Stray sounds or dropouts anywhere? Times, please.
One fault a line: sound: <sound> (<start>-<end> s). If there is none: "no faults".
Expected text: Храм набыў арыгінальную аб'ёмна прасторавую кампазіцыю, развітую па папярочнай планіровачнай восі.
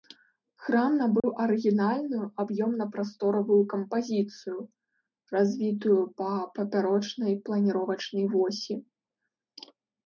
sound: dropout (1.2-1.2 s)